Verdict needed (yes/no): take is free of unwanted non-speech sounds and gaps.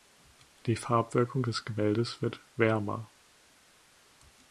yes